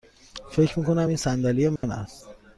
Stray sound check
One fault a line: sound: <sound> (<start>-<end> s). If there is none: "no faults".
sound: dropout (1.8-1.8 s)